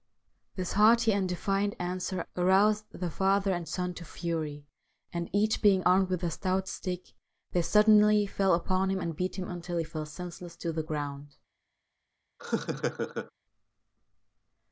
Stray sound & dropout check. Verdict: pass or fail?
fail